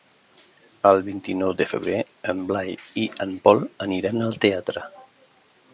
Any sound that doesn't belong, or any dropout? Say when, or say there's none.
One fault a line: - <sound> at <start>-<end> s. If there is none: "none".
none